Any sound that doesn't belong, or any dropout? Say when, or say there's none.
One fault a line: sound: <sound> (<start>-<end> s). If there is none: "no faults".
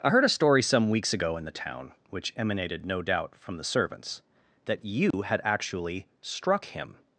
sound: dropout (5.1-5.1 s)